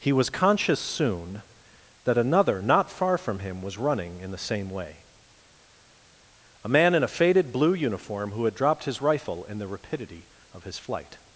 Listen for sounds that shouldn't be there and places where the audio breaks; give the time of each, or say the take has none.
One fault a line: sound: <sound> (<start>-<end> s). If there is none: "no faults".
no faults